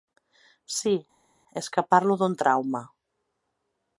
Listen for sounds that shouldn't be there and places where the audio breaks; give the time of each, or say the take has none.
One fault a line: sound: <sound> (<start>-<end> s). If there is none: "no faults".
no faults